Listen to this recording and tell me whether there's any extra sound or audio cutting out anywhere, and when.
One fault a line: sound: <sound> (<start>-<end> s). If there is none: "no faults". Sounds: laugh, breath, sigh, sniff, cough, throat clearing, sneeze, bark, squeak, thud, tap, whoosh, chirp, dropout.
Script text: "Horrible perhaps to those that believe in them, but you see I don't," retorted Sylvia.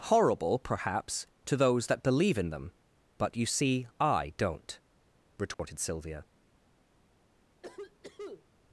sound: dropout (5.5-5.6 s)
sound: cough (7.6-8.5 s)